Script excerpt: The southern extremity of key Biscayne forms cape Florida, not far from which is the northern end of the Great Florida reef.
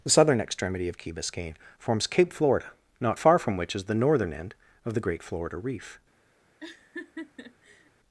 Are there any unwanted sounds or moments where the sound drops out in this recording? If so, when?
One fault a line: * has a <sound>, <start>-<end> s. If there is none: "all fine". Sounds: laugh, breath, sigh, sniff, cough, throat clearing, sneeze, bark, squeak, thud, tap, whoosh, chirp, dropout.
* has a laugh, 6.6-7.9 s